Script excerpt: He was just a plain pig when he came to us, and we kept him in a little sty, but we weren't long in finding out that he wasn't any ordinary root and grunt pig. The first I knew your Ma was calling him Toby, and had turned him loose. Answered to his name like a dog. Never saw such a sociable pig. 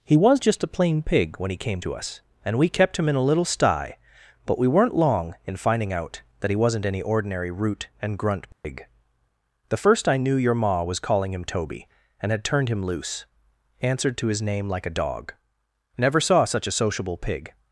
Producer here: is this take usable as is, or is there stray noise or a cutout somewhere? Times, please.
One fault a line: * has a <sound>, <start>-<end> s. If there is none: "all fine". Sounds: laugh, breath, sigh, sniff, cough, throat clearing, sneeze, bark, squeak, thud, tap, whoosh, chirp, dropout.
* has a dropout, 8.5-8.6 s